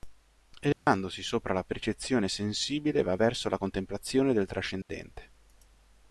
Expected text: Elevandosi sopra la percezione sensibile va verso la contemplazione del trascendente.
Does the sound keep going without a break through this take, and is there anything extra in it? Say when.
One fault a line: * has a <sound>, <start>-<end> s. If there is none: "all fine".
* has a dropout, 0.7-0.9 s
* has a dropout, 4.8-4.9 s